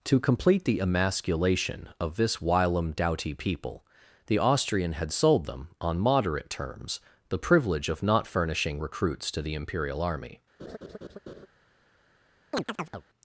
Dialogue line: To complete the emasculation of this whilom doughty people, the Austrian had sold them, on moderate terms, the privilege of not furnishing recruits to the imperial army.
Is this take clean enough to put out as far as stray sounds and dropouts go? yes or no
no